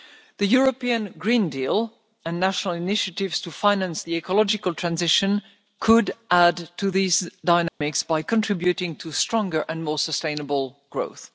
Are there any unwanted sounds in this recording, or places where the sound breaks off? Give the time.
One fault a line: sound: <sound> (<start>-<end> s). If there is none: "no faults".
sound: dropout (7.7-7.8 s)